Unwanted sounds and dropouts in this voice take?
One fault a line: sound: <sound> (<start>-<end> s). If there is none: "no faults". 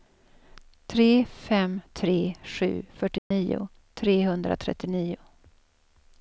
sound: dropout (3.2-3.3 s)